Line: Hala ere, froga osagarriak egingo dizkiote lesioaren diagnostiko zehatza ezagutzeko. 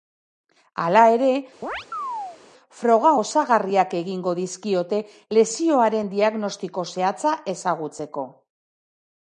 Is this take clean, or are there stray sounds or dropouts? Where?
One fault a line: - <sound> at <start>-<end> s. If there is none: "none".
- chirp at 1.6-2.4 s